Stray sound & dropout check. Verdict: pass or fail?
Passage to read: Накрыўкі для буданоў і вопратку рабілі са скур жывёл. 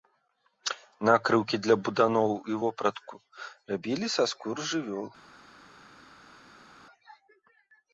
pass